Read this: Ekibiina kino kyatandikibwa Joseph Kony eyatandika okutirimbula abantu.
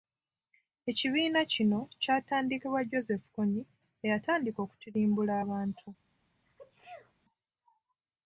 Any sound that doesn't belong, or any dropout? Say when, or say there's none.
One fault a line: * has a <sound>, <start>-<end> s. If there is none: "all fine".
* has a sneeze, 6.5-7.1 s